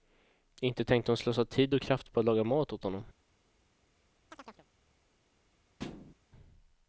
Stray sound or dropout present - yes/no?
yes